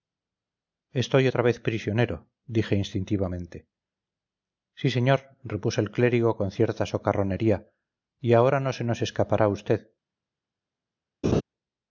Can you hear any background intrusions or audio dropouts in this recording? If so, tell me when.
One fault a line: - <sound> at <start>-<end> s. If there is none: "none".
- laugh at 11.2-11.4 s